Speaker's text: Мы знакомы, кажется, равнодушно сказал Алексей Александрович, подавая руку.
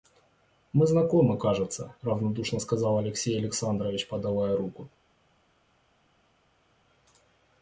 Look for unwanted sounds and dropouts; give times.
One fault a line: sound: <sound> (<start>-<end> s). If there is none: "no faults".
no faults